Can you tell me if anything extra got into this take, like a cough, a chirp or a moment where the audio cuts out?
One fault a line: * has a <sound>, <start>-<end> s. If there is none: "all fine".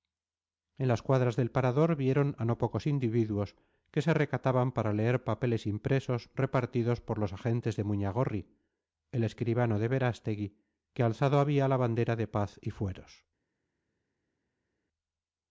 all fine